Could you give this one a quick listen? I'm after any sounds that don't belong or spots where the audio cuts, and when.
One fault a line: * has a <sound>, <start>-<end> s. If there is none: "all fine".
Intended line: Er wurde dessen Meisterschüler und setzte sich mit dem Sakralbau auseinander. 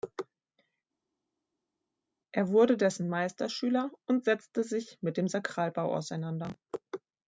all fine